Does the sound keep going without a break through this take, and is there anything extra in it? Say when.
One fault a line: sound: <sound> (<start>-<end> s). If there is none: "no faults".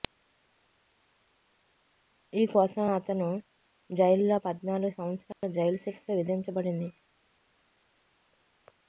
sound: dropout (5.3-5.4 s)